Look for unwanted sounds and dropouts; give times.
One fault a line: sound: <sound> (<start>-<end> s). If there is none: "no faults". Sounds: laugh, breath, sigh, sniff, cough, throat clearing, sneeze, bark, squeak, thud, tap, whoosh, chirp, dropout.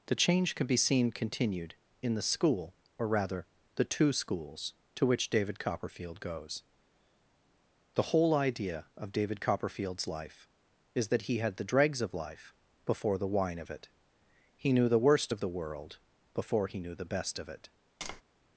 sound: tap (18.0-18.2 s)